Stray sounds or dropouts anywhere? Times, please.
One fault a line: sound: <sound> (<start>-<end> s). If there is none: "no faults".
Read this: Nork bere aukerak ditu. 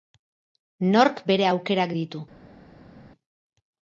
no faults